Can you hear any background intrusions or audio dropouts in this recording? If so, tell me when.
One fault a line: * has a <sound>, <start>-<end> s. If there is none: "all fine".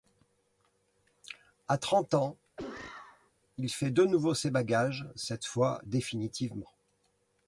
* has a cough, 2.6-3.3 s